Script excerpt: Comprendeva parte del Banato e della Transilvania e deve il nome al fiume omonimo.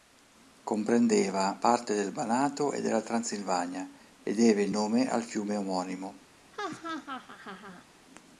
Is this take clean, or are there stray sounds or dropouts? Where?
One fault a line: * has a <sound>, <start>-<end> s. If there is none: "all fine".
* has a laugh, 6.5-7.9 s